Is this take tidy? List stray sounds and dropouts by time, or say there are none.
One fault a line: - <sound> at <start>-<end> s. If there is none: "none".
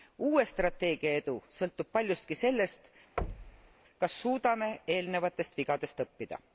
- thud at 3.2-3.7 s